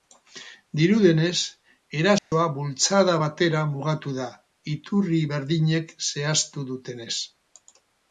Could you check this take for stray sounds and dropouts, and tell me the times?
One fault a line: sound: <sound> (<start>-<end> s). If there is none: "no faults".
sound: dropout (2.2-2.3 s)